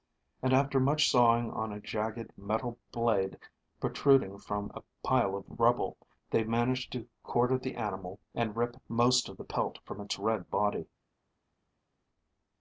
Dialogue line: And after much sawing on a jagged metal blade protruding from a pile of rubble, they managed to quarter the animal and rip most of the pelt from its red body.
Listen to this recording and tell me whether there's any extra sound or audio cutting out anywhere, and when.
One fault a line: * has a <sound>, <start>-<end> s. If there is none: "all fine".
all fine